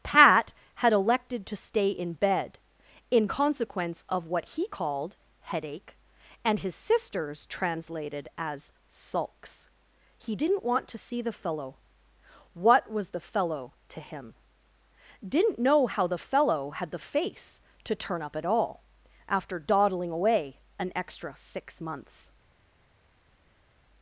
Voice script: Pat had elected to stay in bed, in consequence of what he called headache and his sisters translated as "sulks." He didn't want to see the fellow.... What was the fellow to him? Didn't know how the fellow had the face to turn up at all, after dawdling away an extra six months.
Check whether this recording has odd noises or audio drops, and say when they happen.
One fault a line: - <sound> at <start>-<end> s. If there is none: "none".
none